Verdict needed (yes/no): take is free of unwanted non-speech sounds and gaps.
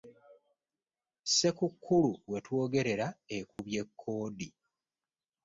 no